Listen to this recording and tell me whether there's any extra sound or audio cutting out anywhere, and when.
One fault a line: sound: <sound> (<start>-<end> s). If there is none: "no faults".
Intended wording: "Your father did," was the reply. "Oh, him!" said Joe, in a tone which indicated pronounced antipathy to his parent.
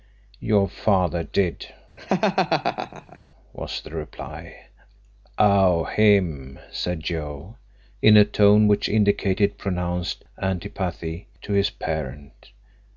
sound: laugh (2.0-3.2 s)